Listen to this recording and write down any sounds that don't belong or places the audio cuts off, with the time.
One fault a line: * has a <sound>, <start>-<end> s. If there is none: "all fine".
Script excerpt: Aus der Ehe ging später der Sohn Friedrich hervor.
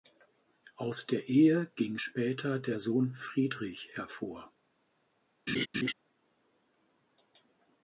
* has a laugh, 5.5-5.9 s